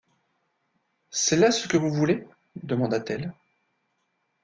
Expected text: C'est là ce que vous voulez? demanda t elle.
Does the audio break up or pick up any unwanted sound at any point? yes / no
no